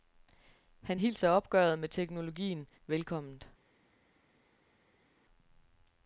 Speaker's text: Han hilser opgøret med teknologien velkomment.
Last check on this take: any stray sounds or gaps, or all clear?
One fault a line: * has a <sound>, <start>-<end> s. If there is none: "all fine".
all fine